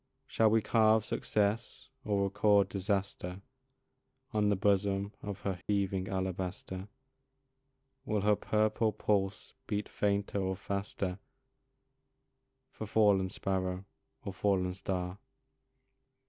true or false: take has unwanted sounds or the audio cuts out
true